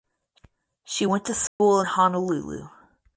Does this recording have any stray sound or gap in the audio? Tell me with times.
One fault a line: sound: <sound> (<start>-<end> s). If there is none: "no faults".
sound: dropout (1.5-1.6 s)